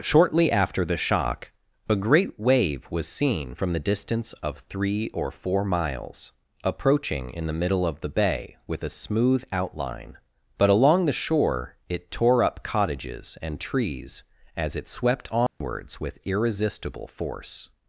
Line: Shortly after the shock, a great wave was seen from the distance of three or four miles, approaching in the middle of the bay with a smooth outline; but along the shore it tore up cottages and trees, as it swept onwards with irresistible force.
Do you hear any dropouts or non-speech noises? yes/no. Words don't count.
yes